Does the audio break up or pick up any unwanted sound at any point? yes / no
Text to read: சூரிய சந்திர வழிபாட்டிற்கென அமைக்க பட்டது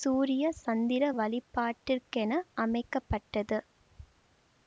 no